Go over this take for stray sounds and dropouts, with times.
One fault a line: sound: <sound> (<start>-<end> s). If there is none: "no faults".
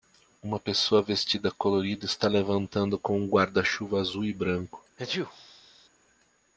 sound: sneeze (5.0-5.9 s)